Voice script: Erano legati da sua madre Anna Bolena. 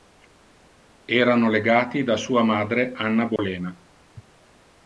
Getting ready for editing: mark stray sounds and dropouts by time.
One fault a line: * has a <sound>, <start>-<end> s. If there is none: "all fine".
* has a dropout, 3.4-3.4 s